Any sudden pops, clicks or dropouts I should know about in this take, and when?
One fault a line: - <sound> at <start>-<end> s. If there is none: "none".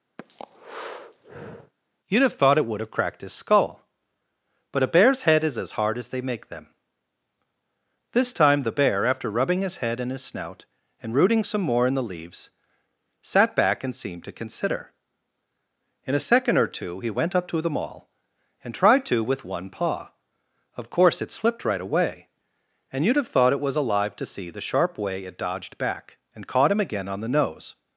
- breath at 0.2-1.7 s